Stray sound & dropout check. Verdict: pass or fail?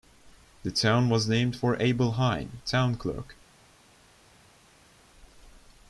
pass